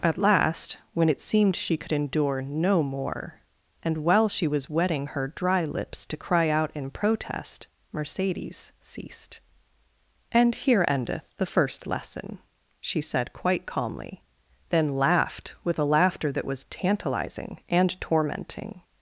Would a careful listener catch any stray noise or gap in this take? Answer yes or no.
no